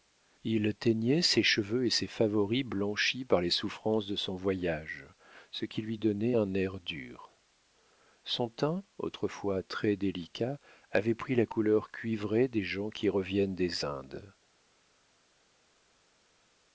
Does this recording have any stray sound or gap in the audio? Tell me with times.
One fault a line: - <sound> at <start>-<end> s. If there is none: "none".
none